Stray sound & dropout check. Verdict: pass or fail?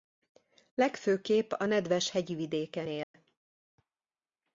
fail